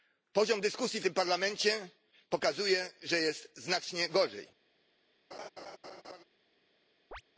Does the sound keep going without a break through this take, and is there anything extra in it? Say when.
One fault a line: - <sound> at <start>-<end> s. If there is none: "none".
- laugh at 5.3-6.2 s
- chirp at 7.1-7.2 s